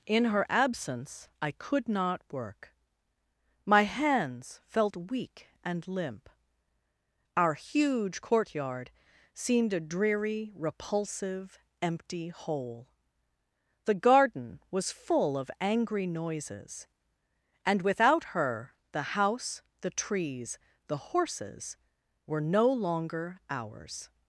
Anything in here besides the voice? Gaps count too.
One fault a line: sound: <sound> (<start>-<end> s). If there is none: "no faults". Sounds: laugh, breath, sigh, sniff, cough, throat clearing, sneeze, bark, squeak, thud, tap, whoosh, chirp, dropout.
no faults